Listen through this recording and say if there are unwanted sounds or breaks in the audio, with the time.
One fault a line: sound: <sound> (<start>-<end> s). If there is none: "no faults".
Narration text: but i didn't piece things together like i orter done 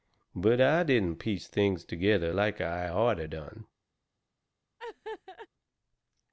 sound: laugh (4.8-5.5 s)